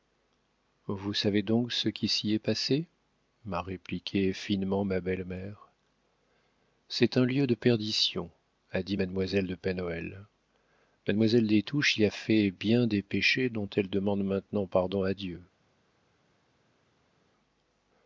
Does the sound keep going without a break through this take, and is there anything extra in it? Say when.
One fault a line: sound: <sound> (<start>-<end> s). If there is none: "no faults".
no faults